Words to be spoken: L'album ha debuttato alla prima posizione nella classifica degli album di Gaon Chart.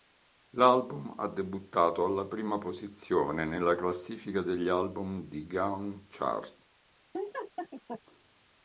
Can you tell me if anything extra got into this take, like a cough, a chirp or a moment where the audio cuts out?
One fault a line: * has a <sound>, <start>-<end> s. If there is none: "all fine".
* has a laugh, 7.1-8.0 s